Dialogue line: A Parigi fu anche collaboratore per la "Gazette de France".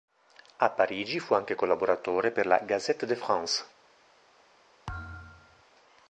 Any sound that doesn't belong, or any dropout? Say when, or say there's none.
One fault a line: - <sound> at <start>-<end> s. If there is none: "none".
- thud at 4.9-5.6 s